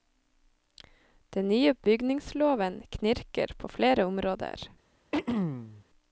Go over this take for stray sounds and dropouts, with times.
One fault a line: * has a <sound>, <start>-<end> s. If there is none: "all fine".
* has a throat clearing, 5.1-5.8 s